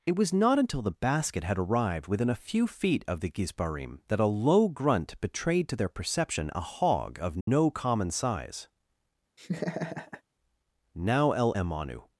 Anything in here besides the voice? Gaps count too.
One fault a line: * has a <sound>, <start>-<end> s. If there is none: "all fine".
* has a dropout, 7.4-7.5 s
* has a laugh, 9.4-10.2 s